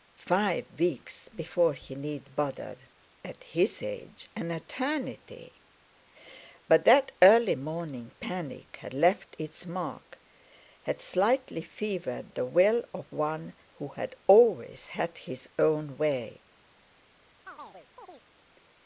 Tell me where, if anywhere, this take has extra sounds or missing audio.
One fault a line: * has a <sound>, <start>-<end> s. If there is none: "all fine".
* has a chirp, 17.5-18.2 s